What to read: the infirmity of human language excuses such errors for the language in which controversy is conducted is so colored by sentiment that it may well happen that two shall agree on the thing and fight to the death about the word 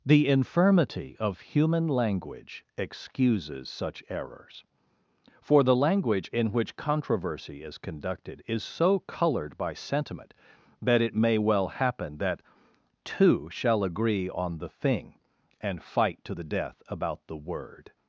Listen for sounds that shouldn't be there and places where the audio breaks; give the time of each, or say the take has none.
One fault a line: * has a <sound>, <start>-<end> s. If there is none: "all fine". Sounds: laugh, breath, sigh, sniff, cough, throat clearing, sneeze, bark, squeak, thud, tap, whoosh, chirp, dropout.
all fine